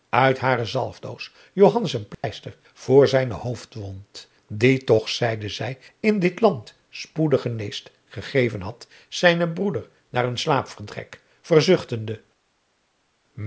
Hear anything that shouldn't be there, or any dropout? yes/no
yes